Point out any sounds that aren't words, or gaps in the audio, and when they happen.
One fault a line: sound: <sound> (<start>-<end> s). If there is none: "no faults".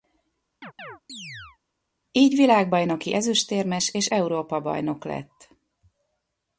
sound: chirp (0.6-1.6 s)